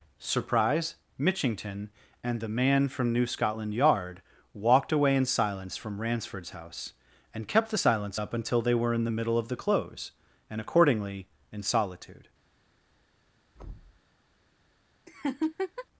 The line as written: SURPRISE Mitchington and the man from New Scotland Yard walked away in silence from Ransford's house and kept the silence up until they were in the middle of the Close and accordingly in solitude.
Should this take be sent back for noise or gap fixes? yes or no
yes